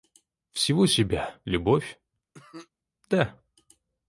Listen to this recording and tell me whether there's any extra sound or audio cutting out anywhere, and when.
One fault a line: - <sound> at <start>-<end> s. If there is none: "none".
- cough at 2.3-2.7 s